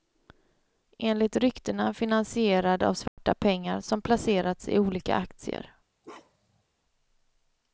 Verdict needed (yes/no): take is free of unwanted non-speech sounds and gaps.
no